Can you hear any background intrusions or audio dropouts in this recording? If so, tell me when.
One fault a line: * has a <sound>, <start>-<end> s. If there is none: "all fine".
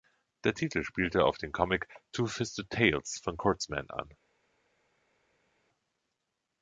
all fine